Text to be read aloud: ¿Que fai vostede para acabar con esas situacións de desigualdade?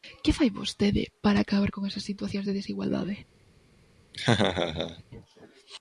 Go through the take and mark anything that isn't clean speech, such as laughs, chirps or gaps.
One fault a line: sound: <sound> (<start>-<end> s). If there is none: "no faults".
sound: laugh (4.1-5.0 s)